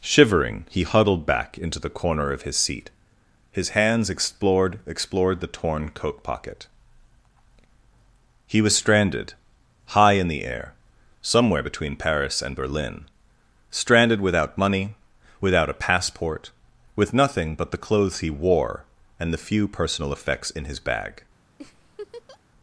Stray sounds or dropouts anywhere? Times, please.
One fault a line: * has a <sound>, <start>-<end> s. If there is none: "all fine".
* has a laugh, 21.6-22.4 s